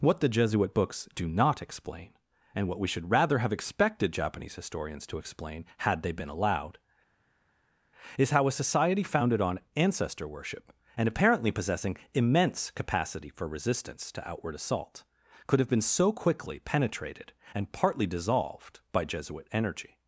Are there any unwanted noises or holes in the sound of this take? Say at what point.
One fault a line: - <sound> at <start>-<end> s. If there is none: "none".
none